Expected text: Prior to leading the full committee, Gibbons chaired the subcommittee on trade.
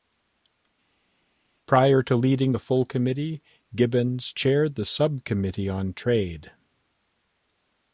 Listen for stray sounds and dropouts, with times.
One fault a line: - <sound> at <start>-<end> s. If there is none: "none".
none